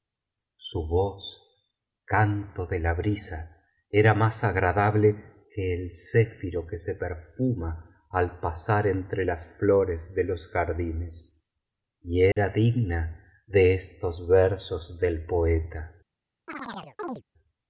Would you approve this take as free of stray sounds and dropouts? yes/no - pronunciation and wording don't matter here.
no